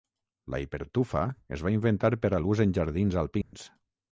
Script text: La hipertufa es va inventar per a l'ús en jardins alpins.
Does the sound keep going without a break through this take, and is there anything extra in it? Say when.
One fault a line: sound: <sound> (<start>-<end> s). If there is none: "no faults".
sound: dropout (3.4-3.5 s)